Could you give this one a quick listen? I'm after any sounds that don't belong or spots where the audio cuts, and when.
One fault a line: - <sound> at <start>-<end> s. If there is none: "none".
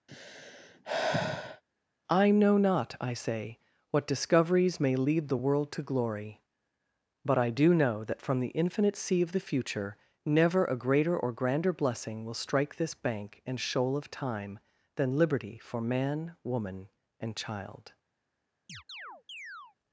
- sigh at 0.1-1.6 s
- chirp at 18.7-19.8 s